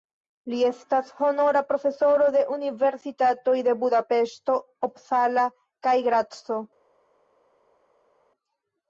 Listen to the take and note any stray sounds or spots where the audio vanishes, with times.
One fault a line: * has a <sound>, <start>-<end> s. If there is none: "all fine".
all fine